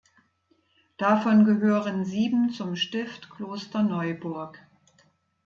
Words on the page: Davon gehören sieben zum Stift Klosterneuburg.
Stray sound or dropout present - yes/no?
no